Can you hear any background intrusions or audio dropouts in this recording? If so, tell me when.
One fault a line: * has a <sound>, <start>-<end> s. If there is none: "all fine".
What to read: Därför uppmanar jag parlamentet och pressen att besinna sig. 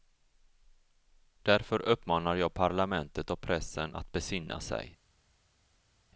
all fine